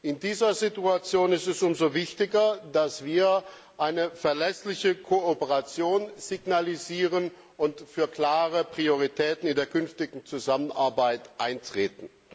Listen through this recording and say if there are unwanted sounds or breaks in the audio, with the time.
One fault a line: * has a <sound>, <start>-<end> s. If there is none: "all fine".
all fine